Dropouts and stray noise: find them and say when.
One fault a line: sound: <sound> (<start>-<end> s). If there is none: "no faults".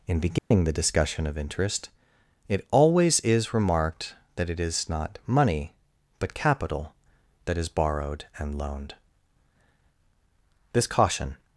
sound: dropout (0.4-0.5 s)